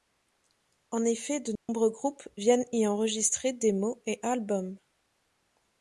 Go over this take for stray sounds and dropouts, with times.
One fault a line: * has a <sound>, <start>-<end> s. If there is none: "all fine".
* has a dropout, 1.6-1.7 s